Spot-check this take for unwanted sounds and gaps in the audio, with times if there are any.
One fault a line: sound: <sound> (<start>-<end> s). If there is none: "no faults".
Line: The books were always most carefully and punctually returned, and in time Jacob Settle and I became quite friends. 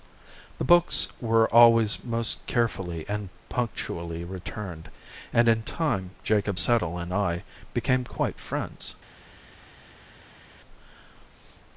no faults